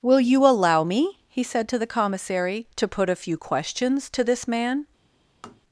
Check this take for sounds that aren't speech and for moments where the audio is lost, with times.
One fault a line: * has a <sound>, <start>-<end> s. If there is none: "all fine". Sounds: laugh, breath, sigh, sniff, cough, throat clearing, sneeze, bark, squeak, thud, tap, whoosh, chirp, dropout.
* has a tap, 5.4-5.6 s